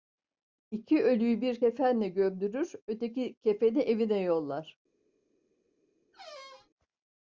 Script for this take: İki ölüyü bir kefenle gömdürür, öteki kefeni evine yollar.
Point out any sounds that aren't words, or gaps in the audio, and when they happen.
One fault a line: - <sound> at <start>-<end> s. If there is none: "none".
- squeak at 6.1-6.7 s